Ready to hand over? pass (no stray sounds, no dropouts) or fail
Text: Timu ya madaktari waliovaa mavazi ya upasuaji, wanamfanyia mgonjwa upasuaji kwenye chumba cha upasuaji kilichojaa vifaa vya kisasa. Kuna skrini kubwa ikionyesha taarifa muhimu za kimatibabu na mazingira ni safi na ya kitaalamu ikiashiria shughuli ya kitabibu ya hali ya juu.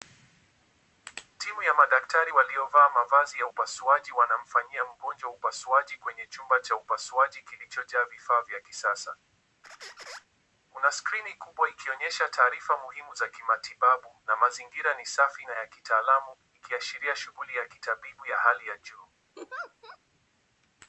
fail